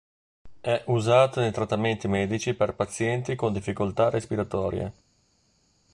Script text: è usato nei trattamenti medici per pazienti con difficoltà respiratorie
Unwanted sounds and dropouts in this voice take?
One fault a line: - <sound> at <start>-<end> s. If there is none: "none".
none